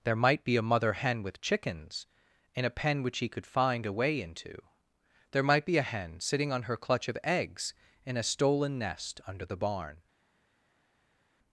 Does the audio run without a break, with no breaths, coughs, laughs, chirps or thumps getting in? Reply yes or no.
yes